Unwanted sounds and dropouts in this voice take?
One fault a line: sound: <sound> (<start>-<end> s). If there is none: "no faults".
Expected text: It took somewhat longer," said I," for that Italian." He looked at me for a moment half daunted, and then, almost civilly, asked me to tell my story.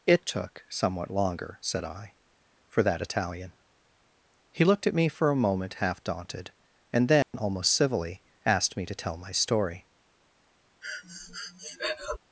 sound: dropout (7.2-7.3 s)
sound: breath (10.8-12.2 s)